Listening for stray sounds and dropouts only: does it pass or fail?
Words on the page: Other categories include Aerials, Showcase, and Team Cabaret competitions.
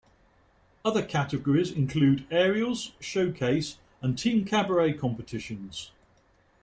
pass